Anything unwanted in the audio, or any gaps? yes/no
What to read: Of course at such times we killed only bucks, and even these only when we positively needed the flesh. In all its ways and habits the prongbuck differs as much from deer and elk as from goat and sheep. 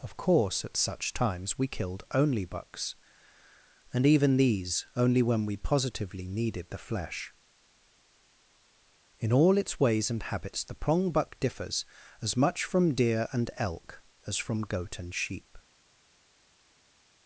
no